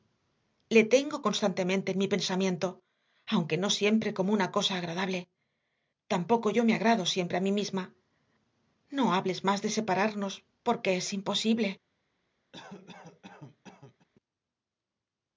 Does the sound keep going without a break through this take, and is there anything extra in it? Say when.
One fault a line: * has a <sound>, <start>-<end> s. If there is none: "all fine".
* has a cough, 12.5-14.1 s